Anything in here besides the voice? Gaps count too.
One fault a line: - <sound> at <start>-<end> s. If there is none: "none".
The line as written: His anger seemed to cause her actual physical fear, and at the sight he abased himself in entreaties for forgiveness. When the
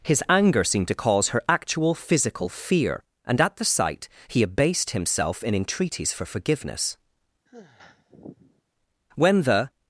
- sigh at 7.5-8.6 s